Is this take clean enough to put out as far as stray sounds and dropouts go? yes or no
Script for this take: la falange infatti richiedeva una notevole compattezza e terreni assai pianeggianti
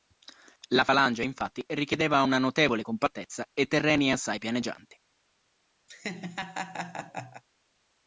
no